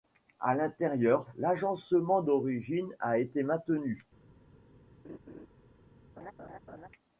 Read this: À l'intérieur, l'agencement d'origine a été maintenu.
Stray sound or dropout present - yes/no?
yes